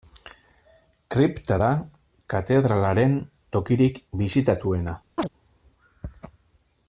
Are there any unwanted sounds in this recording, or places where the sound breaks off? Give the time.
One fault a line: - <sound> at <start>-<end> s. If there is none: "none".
- chirp at 5.2-5.3 s